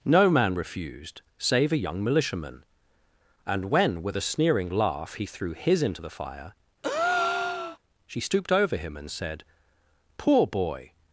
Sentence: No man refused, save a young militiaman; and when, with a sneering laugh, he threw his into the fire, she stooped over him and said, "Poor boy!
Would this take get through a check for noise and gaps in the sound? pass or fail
fail